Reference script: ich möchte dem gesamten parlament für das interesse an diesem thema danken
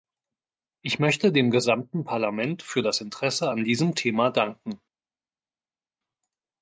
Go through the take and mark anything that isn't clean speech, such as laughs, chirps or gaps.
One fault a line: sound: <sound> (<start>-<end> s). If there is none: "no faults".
no faults